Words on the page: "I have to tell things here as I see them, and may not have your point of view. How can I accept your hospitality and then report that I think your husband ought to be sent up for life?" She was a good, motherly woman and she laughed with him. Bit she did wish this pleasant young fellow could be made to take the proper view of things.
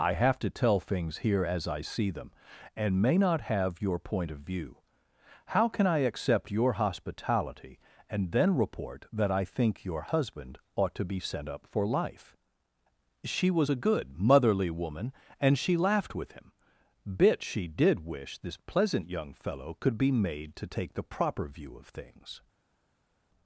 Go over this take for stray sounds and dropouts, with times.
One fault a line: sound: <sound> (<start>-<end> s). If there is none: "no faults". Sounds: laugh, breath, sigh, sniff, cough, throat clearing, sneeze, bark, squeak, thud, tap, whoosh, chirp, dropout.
no faults